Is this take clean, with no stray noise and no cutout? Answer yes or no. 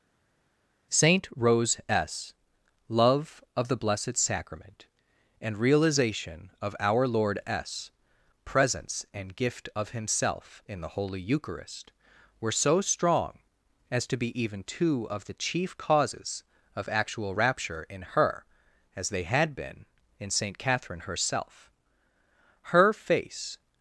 yes